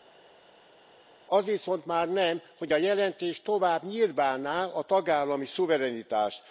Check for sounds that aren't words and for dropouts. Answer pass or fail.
pass